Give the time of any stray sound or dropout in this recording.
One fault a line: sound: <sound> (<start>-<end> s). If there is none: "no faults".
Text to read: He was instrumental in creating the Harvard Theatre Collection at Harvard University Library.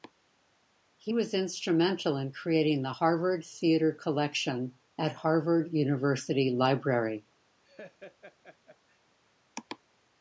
sound: laugh (7.6-9.0 s)